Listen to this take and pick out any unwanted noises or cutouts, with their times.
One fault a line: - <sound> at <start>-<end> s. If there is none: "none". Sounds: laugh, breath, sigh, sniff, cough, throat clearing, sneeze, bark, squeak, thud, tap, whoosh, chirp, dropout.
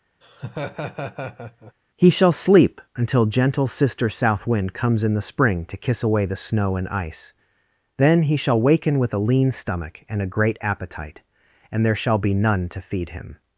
- laugh at 0.2-1.7 s